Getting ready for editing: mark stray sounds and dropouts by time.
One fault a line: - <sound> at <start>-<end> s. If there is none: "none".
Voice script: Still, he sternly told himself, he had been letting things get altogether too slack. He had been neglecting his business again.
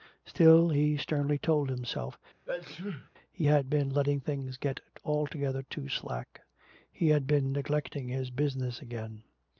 - sneeze at 2.5-3.1 s